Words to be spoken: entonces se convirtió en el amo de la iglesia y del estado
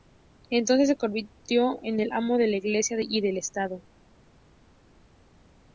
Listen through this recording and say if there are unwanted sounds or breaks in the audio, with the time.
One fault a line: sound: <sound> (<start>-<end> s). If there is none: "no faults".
no faults